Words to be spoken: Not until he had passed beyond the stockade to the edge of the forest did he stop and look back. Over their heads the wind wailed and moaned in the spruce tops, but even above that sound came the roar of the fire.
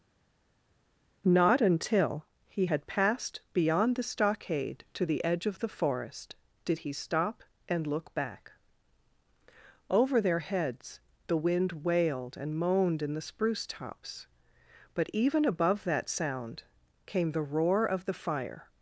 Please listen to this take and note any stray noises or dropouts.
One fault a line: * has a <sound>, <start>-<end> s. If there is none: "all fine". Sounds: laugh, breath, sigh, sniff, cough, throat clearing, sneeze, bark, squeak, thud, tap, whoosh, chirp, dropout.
all fine